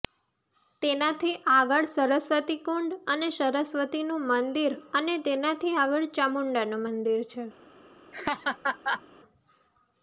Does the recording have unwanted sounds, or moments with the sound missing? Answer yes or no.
yes